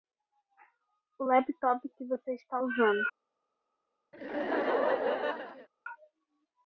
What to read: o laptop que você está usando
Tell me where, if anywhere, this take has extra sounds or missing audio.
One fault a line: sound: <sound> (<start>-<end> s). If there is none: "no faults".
sound: laugh (4.1-5.7 s)